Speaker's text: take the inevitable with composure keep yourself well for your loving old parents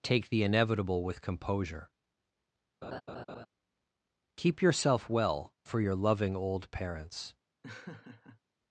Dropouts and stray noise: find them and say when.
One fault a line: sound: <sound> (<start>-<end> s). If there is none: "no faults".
sound: laugh (2.8-3.5 s)
sound: laugh (7.6-8.4 s)